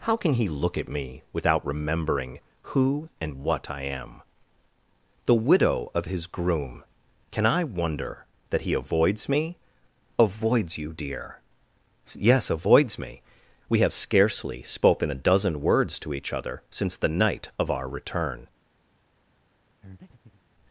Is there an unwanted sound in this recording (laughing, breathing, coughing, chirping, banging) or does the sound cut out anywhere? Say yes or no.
yes